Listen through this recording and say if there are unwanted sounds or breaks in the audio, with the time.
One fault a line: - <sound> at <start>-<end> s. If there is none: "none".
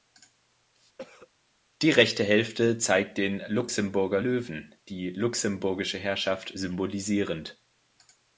- cough at 1.0-1.3 s